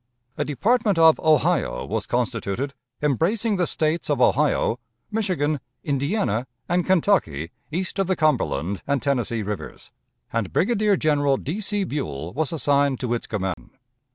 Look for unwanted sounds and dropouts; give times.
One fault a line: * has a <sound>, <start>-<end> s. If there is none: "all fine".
* has a dropout, 13.5-13.6 s